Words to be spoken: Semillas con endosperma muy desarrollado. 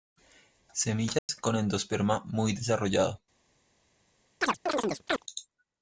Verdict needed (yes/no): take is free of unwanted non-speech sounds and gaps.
no